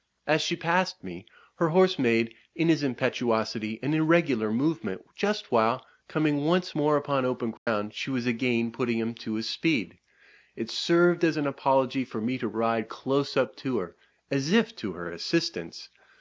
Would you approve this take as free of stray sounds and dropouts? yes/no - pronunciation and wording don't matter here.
no